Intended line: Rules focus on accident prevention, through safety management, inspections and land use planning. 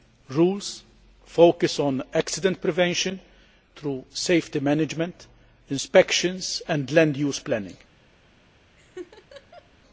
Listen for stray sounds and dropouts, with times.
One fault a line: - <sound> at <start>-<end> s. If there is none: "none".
- laugh at 8.8-9.7 s